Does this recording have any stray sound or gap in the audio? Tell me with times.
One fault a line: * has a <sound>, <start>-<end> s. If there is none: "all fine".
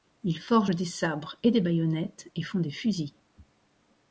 all fine